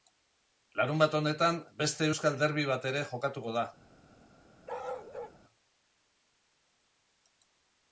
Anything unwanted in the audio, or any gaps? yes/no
yes